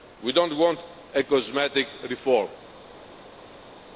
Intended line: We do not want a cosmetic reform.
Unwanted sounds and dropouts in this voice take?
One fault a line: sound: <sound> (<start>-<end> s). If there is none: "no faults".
no faults